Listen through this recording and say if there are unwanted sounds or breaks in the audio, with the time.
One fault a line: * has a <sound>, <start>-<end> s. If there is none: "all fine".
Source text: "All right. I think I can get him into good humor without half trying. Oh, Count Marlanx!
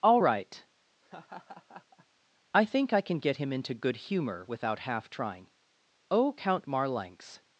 * has a laugh, 1.0-2.1 s